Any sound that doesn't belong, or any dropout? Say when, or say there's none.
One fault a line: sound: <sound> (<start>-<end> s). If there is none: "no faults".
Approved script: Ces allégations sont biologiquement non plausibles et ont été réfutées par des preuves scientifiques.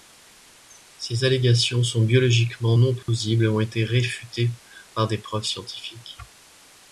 sound: dropout (3.0-3.1 s)